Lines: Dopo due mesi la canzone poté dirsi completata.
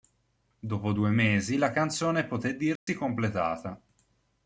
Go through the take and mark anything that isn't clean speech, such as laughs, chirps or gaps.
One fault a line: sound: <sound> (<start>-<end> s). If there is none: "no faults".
sound: dropout (2.8-2.9 s)